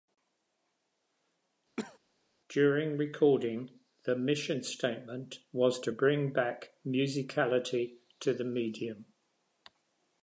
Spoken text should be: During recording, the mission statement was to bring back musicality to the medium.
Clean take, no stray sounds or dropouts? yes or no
no